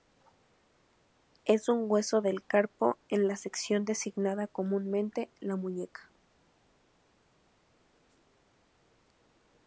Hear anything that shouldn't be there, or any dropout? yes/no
no